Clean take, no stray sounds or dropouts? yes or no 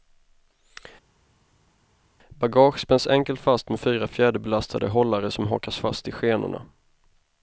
yes